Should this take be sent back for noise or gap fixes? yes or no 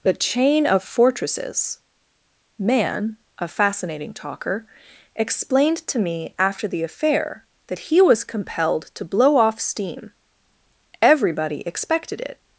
no